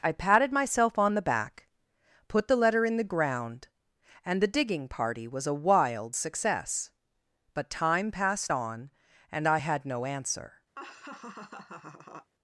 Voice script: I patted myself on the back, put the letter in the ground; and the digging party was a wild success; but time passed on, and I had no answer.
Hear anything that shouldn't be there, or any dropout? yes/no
yes